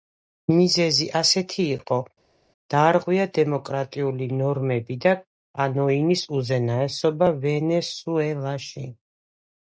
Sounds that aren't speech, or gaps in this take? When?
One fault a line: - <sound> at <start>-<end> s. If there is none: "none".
none